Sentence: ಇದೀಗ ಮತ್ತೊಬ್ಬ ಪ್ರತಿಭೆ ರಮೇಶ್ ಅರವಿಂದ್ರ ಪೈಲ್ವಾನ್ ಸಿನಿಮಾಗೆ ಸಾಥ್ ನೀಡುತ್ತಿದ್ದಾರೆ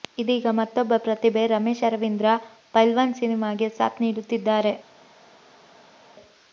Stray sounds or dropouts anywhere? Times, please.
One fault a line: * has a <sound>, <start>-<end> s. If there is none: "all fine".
all fine